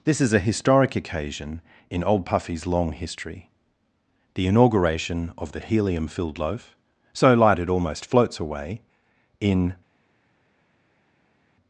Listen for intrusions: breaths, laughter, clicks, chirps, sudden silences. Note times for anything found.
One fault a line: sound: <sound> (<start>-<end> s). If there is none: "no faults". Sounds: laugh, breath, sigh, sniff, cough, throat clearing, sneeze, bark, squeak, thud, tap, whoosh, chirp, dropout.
no faults